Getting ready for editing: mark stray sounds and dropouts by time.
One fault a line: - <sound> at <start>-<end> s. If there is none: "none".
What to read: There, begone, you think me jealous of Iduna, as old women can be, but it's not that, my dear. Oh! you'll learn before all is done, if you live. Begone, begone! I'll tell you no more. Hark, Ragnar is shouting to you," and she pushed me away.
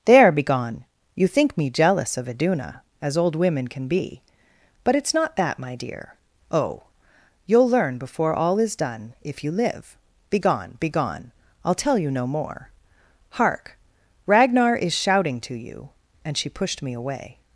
none